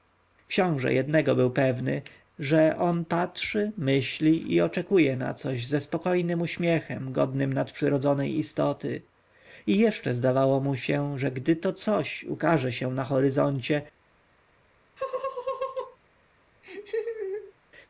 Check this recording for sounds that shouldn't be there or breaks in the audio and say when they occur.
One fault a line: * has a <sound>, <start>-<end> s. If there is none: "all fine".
* has a laugh, 15.0-16.0 s
* has a laugh, 16.6-17.5 s